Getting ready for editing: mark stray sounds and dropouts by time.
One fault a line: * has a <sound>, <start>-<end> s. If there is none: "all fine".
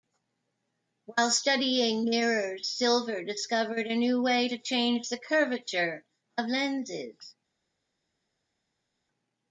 all fine